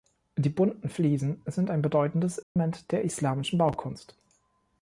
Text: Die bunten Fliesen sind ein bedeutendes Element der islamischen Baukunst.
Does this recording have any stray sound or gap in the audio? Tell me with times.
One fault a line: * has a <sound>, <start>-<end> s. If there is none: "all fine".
* has a dropout, 2.4-2.6 s